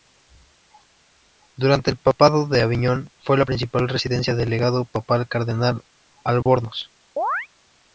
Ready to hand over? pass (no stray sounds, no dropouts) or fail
fail